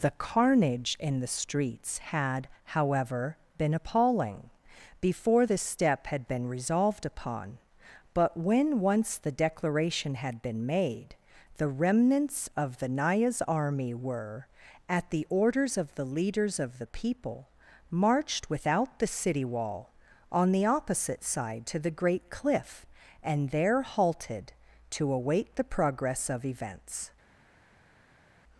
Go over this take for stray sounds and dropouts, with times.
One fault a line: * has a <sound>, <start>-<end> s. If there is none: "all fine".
all fine